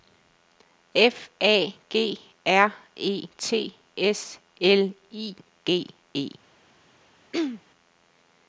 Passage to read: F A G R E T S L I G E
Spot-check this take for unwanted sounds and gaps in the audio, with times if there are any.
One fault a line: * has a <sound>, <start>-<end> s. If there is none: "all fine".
* has a throat clearing, 7.3-7.6 s